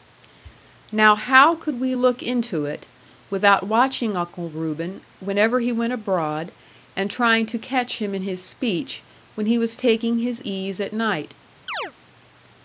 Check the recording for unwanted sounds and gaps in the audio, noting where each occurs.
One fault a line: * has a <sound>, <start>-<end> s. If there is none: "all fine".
* has a chirp, 11.7-11.9 s